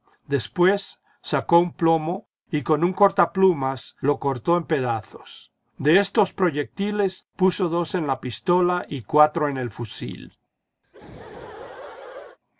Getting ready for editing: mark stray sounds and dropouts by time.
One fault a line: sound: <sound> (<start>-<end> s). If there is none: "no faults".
sound: laugh (10.8-12.4 s)